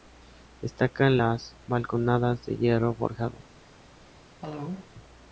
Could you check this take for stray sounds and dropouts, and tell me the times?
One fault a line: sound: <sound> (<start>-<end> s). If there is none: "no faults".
sound: cough (4.4-4.9 s)